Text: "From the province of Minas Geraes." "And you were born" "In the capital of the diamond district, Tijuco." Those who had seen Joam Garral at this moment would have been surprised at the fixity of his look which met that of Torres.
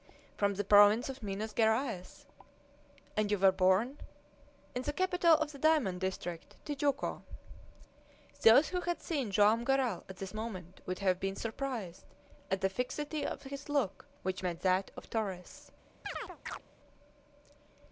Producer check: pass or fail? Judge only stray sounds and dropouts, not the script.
fail